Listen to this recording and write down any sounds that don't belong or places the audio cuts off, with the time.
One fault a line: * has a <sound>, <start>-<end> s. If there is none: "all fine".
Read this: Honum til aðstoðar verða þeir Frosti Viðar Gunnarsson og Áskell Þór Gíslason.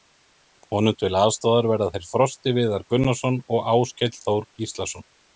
all fine